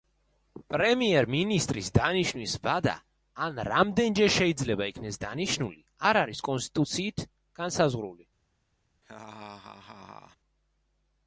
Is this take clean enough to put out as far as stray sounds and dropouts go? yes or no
no